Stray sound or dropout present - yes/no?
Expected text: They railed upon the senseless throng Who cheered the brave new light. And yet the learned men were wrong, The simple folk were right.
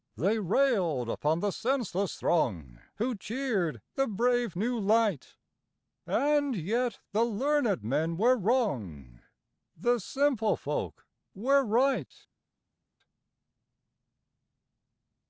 no